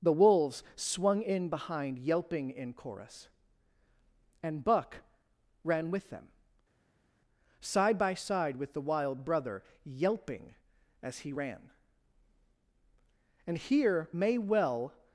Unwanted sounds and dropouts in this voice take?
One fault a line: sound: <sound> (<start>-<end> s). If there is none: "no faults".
no faults